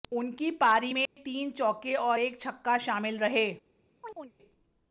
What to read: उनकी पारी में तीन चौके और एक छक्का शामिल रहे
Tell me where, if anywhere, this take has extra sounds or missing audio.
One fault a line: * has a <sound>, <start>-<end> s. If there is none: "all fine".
* has a dropout, 1.1-1.2 s
* has a chirp, 4.0-4.3 s